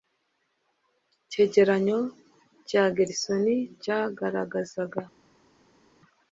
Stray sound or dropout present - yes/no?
no